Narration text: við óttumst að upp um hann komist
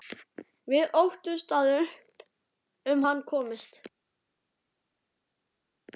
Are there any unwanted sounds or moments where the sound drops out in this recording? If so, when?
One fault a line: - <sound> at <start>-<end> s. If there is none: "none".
none